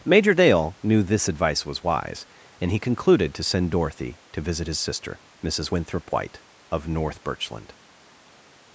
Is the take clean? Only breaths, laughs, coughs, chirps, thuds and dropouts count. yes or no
yes